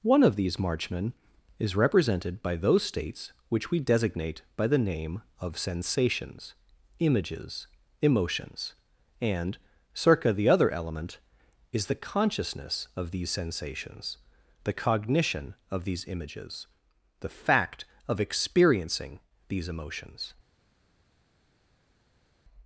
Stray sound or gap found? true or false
false